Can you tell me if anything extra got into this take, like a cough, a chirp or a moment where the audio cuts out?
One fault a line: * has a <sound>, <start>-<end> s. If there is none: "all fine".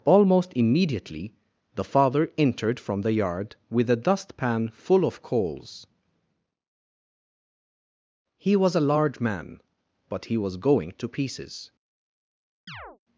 * has a chirp, 12.7-13.0 s